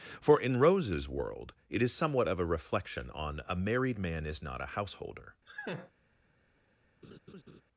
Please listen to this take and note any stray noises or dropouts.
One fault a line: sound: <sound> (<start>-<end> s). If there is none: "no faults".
sound: laugh (5.5-5.9 s)
sound: laugh (7.0-7.6 s)